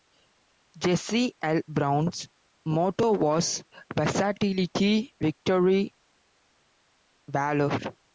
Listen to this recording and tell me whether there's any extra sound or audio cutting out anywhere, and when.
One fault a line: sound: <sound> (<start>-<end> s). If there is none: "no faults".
no faults